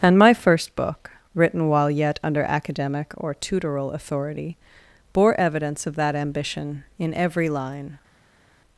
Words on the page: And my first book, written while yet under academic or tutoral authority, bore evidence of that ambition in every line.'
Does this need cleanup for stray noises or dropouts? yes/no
no